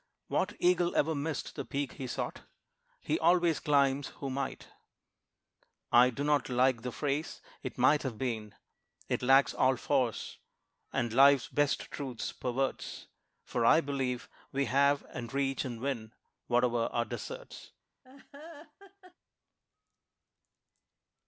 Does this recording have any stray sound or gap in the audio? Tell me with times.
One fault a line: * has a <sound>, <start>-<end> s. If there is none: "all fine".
* has a laugh, 18.0-19.1 s